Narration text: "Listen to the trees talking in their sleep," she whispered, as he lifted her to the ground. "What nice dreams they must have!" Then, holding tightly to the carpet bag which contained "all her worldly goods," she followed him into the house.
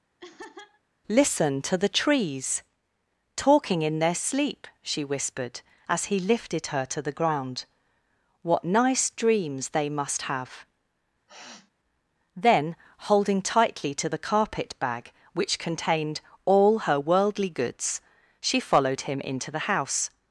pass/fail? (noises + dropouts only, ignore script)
fail